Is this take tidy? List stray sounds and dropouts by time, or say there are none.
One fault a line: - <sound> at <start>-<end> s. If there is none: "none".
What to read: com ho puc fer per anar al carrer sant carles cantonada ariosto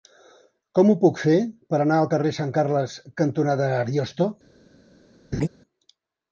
- laugh at 5.3-5.5 s